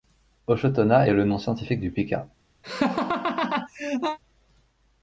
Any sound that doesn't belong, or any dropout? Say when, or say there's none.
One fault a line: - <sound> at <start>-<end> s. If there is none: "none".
- laugh at 2.6-4.2 s